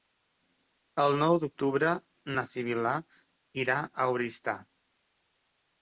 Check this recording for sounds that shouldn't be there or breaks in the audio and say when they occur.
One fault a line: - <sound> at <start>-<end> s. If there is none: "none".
none